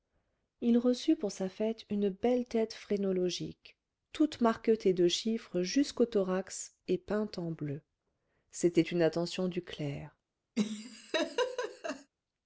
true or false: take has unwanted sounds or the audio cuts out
true